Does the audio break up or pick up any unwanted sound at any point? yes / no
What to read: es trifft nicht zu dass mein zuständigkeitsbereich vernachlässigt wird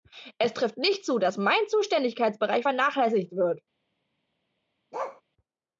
yes